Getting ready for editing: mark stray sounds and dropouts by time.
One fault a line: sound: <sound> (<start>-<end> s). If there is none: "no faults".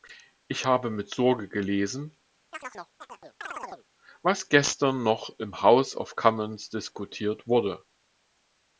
sound: chirp (2.5-3.9 s)